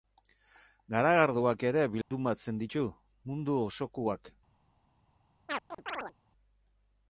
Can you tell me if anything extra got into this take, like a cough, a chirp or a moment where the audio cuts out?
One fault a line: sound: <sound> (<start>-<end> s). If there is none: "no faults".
sound: dropout (2.0-2.1 s)
sound: chirp (5.5-6.1 s)